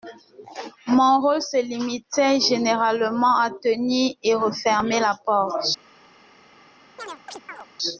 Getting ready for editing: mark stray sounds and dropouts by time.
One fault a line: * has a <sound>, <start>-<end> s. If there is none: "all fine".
* has a chirp, 7.0-7.7 s